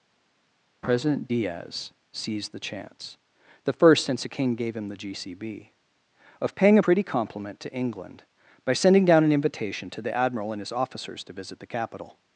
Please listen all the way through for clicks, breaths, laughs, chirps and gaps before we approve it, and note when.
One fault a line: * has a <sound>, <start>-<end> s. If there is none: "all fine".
all fine